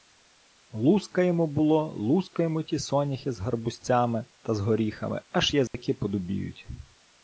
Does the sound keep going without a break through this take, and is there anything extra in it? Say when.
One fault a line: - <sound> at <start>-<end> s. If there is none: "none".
- dropout at 5.7-5.7 s